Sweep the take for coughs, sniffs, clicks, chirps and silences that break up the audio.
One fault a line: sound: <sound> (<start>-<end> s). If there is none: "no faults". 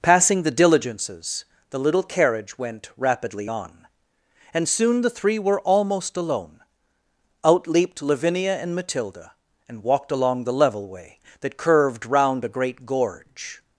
no faults